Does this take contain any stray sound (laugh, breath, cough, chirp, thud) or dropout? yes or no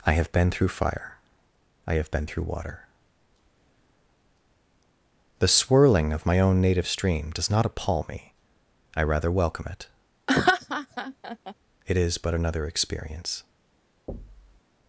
yes